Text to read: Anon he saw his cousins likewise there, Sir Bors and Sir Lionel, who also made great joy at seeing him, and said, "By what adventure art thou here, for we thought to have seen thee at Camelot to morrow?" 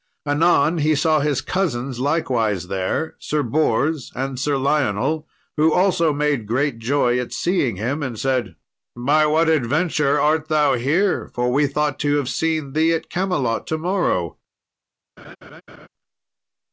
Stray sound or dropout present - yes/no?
yes